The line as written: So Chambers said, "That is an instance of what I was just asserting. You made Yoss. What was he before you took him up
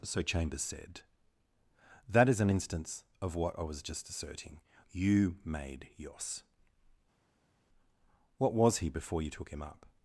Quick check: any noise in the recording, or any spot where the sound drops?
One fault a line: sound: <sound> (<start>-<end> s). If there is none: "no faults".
no faults